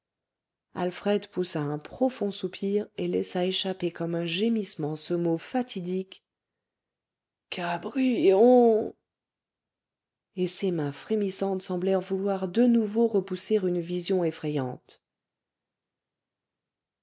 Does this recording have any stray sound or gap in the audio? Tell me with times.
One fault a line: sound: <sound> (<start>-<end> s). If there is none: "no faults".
no faults